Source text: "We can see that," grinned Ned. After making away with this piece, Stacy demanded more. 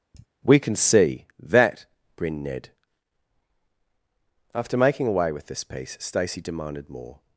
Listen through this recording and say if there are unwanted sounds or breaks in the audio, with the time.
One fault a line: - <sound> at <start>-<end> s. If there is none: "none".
- sigh at 0.1-0.3 s